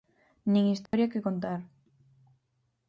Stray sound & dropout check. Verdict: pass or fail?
fail